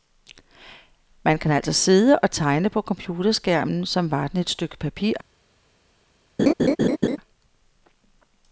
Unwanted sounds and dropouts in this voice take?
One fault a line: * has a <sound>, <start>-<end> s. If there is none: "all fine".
* has a laugh, 6.4-7.2 s